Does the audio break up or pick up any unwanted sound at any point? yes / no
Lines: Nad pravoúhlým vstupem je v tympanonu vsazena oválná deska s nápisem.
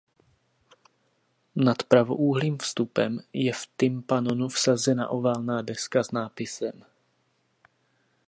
no